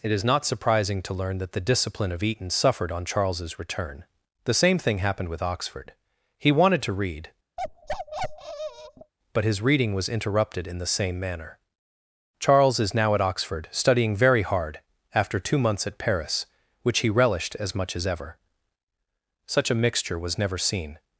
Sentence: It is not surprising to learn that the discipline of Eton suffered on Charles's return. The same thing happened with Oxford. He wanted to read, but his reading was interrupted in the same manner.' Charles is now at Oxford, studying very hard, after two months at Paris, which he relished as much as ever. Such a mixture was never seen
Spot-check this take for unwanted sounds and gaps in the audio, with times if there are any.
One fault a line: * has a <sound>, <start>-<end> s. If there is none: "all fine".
* has a bark, 7.6-9.1 s